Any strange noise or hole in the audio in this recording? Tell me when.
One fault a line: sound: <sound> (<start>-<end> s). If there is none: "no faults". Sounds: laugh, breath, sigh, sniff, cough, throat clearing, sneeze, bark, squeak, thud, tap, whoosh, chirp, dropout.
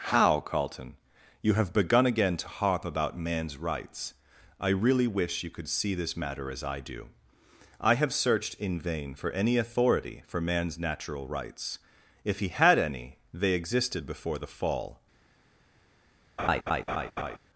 sound: laugh (16.4-17.4 s)